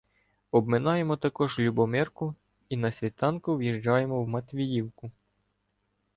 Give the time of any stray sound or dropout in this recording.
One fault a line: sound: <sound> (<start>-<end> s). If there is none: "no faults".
no faults